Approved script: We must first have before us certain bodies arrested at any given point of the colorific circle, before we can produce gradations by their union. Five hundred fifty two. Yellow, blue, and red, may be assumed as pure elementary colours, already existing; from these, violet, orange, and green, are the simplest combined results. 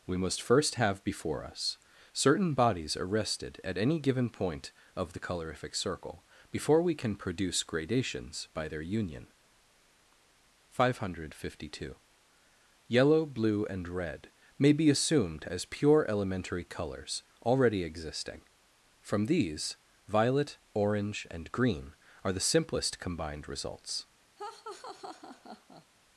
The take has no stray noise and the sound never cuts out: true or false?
false